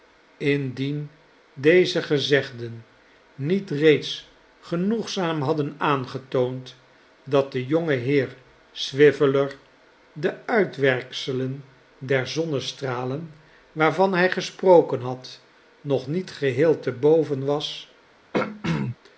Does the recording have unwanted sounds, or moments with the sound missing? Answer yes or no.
yes